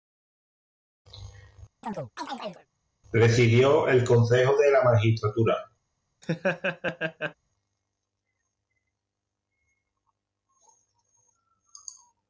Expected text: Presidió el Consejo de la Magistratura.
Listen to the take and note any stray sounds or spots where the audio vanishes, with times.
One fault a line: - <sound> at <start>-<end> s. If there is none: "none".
- chirp at 1.8-2.7 s
- laugh at 6.2-7.3 s